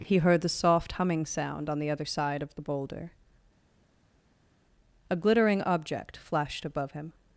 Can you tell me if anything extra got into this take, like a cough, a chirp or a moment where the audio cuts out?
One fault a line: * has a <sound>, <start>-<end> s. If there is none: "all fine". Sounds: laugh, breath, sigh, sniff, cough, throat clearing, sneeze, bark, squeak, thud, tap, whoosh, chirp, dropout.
all fine